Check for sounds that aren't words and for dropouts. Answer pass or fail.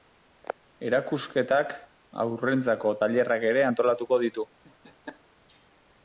fail